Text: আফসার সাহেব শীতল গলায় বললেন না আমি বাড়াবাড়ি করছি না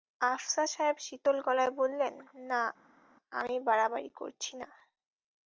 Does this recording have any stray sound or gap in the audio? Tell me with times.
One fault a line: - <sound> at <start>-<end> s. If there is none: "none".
none